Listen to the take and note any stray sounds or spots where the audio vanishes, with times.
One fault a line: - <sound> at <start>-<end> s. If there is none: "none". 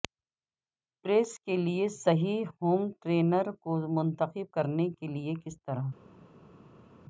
none